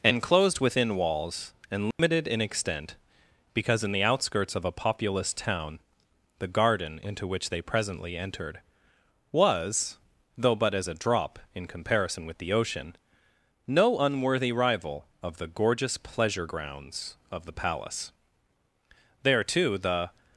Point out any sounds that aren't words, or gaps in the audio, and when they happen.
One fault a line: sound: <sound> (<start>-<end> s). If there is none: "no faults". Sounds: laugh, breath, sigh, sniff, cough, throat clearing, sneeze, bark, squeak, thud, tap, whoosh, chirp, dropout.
sound: dropout (1.9-2.0 s)